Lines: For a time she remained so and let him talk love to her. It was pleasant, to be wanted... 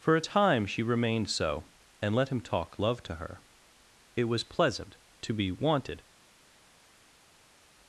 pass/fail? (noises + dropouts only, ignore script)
pass